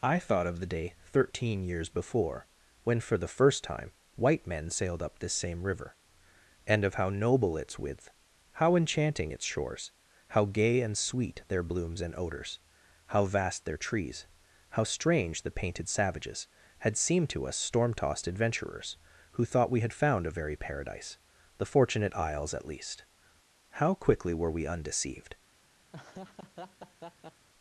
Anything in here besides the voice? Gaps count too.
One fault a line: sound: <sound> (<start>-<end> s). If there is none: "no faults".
sound: laugh (25.9-27.5 s)